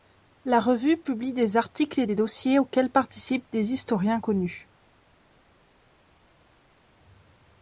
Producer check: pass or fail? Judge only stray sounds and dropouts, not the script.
pass